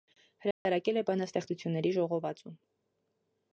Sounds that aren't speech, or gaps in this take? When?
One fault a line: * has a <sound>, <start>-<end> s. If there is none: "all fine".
* has a dropout, 0.5-0.7 s